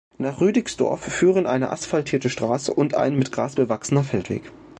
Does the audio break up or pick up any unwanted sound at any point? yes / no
no